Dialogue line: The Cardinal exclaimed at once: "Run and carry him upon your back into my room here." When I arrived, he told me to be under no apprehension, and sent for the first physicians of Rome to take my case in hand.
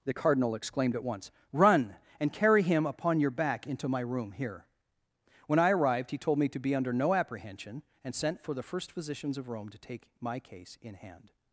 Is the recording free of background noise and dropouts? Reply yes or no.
yes